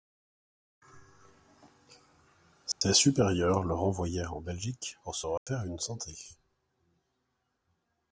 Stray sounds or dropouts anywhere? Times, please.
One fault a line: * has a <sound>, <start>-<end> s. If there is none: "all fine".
* has a dropout, 2.7-2.8 s
* has a dropout, 5.4-5.5 s